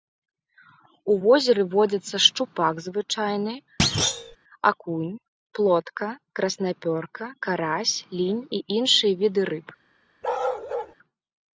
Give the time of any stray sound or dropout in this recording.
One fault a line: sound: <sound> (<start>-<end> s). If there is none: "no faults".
sound: thud (3.8-4.4 s)
sound: bark (10.2-10.9 s)